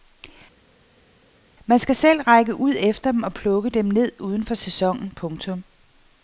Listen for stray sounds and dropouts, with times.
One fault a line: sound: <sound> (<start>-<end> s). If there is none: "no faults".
no faults